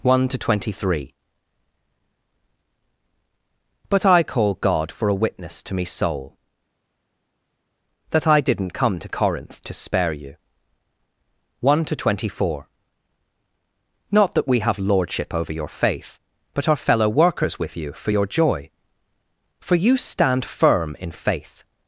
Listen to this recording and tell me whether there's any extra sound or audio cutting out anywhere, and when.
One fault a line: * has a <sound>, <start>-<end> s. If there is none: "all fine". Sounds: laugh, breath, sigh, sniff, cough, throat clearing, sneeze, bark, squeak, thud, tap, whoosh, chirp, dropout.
all fine